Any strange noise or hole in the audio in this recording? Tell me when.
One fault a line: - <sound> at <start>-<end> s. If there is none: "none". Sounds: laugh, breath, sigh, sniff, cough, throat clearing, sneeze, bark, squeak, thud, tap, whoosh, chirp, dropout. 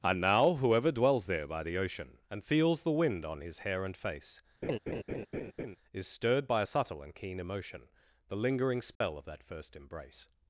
- laugh at 4.6-5.8 s
- dropout at 9.0-9.0 s